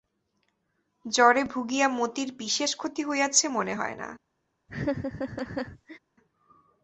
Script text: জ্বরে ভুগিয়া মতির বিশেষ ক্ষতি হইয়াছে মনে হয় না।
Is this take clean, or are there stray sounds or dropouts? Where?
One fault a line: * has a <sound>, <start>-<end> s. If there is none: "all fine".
* has a laugh, 4.7-6.0 s